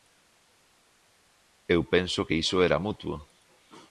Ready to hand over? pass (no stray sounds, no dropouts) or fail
pass